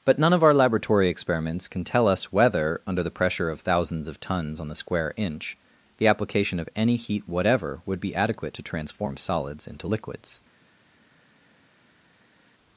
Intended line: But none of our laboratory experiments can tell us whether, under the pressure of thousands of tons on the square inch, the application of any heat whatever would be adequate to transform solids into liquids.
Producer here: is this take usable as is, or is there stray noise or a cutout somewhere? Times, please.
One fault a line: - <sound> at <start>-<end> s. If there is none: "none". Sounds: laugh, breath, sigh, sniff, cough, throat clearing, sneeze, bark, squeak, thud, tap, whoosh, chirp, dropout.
none